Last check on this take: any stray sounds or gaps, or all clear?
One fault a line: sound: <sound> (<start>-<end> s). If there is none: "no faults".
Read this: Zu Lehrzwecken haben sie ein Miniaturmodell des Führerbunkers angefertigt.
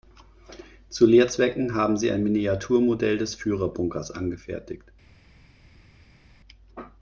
no faults